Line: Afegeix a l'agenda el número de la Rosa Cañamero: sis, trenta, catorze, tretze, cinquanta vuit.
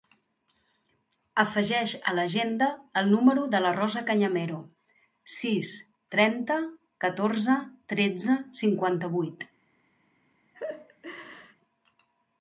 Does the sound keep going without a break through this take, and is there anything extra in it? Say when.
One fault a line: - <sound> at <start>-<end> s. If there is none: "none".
- laugh at 10.5-11.6 s